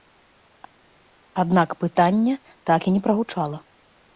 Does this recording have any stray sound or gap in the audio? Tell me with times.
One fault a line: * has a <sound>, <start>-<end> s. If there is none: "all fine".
all fine